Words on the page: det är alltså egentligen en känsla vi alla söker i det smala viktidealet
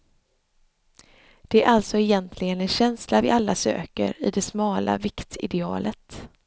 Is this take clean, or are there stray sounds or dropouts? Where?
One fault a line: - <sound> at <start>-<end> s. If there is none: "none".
none